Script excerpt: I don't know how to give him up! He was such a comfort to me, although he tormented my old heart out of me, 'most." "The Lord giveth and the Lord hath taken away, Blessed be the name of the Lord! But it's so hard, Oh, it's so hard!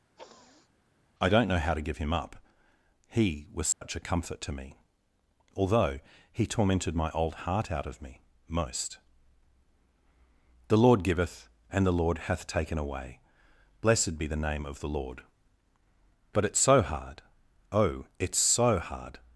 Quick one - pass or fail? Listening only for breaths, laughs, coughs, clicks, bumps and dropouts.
fail